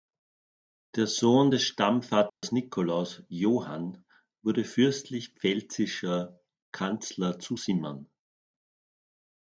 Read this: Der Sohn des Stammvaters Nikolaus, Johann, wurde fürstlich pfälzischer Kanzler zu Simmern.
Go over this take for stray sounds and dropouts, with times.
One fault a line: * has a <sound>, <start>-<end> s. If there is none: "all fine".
* has a dropout, 2.3-2.4 s